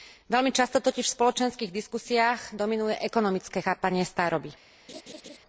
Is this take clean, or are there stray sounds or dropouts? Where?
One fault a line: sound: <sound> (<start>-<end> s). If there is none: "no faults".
sound: laugh (4.9-5.4 s)